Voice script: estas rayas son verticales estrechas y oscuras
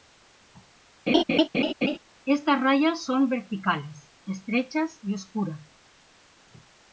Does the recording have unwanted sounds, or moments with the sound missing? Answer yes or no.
yes